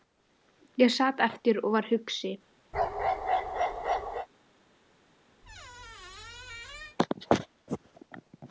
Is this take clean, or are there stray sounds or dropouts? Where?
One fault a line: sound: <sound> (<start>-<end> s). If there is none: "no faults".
sound: bark (2.7-4.3 s)
sound: squeak (5.4-7.0 s)